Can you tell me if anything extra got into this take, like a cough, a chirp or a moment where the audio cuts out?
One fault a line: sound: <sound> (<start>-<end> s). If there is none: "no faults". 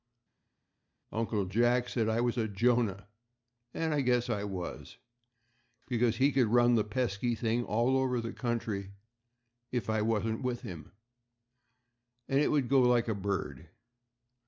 no faults